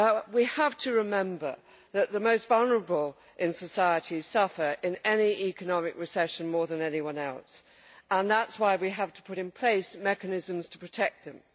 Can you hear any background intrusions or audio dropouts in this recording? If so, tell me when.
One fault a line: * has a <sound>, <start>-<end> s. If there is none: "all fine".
all fine